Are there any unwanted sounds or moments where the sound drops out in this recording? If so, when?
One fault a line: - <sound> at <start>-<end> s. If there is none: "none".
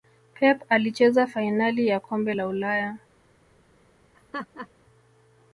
- laugh at 4.1-4.7 s